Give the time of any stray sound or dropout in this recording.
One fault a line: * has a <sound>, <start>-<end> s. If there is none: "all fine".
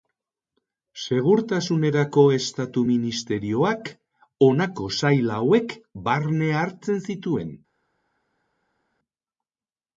all fine